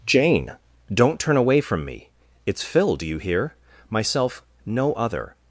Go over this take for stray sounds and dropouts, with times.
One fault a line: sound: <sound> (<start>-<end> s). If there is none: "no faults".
no faults